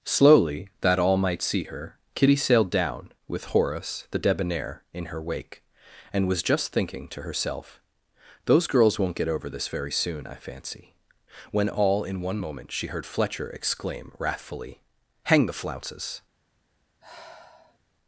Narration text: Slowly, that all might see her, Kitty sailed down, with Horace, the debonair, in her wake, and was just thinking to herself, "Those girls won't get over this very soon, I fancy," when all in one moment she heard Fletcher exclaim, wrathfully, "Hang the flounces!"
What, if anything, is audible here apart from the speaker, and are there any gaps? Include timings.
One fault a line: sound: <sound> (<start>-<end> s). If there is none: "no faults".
sound: sigh (17.0-17.8 s)